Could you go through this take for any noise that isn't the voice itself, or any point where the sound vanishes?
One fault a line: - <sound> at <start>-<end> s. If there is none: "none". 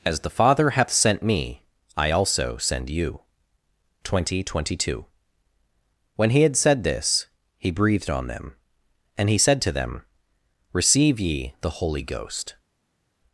none